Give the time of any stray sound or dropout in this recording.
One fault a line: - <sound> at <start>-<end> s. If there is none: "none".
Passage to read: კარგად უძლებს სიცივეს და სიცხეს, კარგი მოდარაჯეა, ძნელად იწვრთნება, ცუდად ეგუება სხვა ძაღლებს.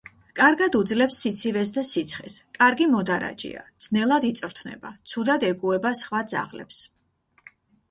none